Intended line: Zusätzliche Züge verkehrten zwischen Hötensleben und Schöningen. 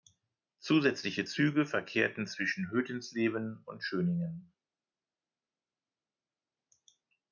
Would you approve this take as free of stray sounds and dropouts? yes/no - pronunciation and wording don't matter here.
yes